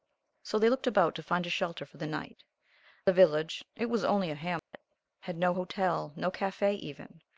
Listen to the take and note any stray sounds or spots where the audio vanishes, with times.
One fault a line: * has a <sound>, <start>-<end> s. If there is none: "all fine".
* has a dropout, 4.6-4.7 s